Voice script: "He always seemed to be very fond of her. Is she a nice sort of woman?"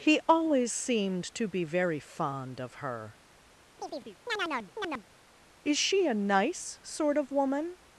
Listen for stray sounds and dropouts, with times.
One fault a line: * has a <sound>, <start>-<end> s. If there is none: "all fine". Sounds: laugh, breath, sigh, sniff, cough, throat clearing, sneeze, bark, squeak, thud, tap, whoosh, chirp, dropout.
* has a chirp, 3.8-5.0 s